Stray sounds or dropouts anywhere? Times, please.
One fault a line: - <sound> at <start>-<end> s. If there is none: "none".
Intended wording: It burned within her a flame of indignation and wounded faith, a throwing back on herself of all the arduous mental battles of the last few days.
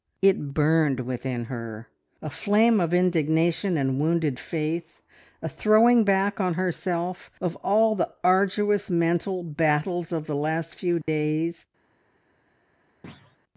- dropout at 11.0-11.1 s
- thud at 13.0-13.4 s